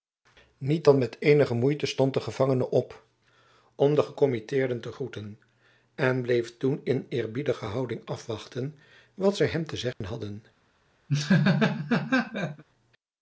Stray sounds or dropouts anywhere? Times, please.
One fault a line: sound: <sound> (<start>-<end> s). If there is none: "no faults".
sound: dropout (9.9-10.0 s)
sound: laugh (11.1-12.6 s)